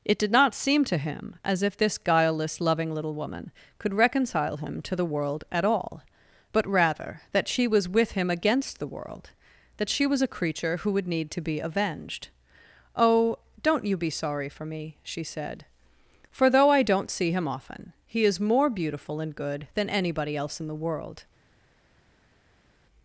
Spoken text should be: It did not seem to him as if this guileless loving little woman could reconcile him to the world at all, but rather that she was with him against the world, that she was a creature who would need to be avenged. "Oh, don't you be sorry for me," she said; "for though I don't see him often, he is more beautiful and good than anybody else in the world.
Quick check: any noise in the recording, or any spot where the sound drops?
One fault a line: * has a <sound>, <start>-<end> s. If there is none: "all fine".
all fine